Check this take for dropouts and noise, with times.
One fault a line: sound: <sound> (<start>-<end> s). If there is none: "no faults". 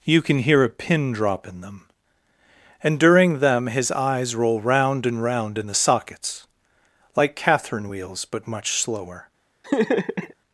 sound: laugh (9.6-10.3 s)